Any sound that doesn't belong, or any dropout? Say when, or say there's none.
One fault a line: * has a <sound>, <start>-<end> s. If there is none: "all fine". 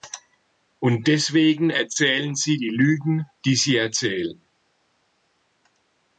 all fine